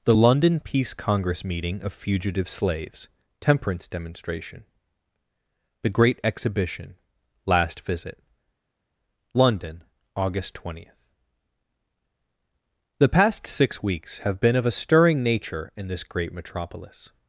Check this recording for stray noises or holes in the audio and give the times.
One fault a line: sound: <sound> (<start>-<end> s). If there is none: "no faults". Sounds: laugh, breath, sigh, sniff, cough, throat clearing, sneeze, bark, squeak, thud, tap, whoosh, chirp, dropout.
no faults